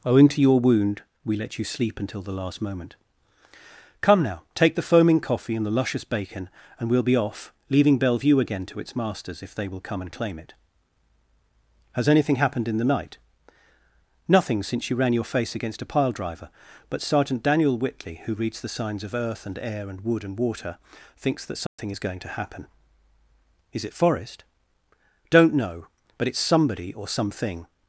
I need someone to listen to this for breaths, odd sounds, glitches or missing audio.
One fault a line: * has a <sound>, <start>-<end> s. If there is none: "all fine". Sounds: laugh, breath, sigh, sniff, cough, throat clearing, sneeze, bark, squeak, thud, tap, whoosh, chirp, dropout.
* has a dropout, 21.7-21.8 s